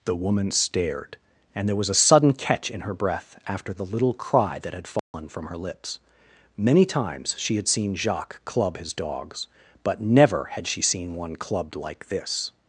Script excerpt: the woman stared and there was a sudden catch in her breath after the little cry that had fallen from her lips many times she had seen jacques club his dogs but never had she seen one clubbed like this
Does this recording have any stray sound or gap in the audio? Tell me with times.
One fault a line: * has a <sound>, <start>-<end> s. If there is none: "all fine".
* has a dropout, 5.0-5.1 s